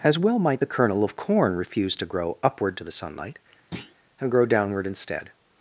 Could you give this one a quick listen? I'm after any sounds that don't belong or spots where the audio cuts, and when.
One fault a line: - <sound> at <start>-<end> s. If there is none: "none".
- thud at 3.7-3.9 s